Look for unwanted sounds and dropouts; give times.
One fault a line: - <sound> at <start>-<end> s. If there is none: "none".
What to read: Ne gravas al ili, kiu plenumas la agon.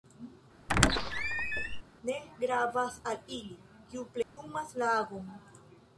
- squeak at 0.7-1.8 s
- dropout at 4.2-4.4 s